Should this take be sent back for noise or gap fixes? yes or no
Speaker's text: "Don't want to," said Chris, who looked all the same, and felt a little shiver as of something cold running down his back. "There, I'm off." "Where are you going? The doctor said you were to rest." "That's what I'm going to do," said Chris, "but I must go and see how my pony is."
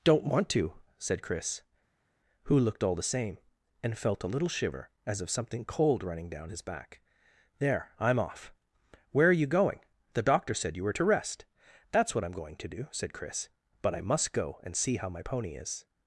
no